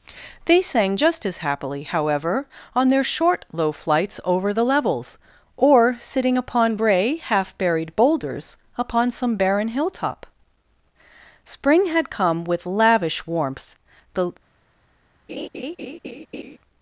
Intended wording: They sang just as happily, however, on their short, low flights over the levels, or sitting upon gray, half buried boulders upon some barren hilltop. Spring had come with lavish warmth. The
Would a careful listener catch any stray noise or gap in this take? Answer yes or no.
yes